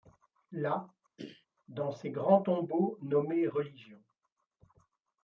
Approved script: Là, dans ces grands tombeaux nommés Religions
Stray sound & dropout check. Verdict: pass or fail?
fail